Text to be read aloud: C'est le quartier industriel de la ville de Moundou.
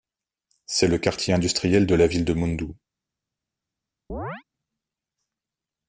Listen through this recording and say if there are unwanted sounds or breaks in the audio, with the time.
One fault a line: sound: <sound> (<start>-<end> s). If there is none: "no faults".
sound: chirp (4.1-4.4 s)